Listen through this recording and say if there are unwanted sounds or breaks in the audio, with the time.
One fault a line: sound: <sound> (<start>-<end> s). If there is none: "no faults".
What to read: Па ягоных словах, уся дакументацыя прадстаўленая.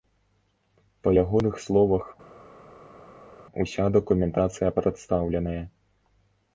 no faults